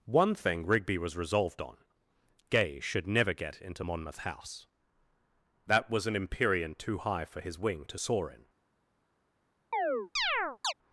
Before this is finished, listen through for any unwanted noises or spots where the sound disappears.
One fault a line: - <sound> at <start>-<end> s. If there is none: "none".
- chirp at 9.7-10.7 s